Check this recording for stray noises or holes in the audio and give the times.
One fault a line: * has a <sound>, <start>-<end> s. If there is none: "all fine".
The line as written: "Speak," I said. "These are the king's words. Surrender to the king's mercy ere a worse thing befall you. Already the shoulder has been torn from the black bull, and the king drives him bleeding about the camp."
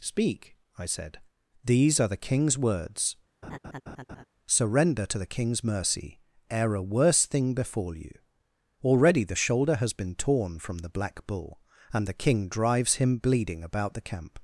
* has a laugh, 3.4-4.2 s